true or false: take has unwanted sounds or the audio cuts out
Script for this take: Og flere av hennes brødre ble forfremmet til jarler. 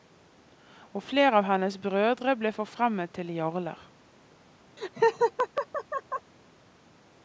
true